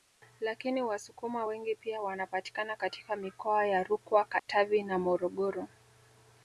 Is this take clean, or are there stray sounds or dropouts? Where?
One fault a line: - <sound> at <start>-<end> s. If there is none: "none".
- dropout at 4.4-4.5 s